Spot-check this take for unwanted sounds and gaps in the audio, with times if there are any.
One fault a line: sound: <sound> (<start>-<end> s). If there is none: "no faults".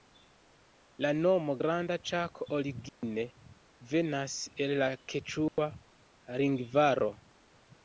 sound: dropout (2.9-3.0 s)
sound: dropout (5.5-5.6 s)